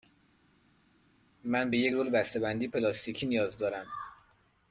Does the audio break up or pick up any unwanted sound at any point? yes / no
no